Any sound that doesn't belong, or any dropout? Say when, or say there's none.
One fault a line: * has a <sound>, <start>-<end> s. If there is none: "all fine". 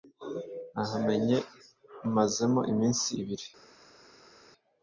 all fine